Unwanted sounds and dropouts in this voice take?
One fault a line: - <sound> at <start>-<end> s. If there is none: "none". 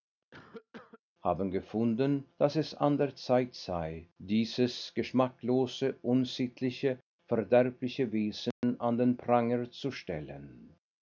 - cough at 0.3-1.0 s
- dropout at 8.5-8.6 s